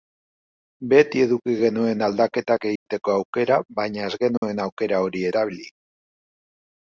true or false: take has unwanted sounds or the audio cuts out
true